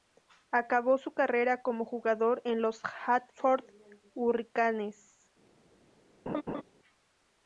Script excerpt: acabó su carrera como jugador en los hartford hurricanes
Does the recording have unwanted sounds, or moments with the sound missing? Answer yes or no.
yes